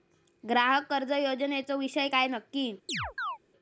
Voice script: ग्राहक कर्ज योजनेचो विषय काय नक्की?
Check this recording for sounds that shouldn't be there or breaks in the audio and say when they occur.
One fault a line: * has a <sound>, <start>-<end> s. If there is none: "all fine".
* has a chirp, 2.9-3.4 s